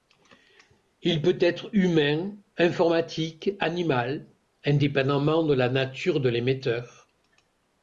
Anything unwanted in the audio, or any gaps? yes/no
no